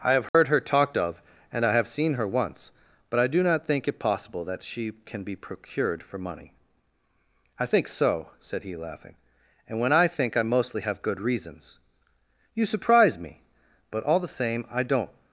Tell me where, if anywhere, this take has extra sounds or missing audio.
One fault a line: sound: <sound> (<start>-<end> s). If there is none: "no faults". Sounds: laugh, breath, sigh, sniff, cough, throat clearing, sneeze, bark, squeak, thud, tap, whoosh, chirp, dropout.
sound: dropout (0.3-0.3 s)